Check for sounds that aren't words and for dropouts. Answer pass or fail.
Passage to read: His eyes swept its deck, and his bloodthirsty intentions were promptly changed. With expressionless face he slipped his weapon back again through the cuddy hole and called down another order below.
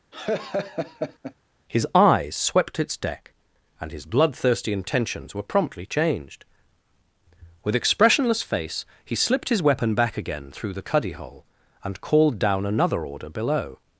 fail